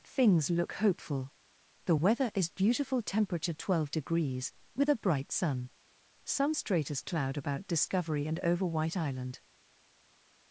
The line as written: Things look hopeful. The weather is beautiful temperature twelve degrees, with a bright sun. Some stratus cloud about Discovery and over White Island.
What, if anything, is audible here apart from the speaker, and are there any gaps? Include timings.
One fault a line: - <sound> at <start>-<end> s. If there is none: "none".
none